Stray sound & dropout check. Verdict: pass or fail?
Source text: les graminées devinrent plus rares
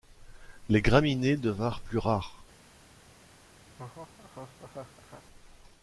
fail